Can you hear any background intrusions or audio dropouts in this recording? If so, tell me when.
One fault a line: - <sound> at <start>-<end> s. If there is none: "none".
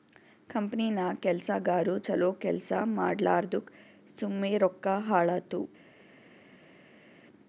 none